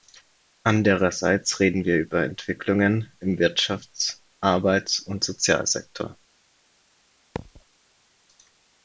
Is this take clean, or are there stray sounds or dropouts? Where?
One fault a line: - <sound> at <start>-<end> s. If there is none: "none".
- thud at 7.4-7.6 s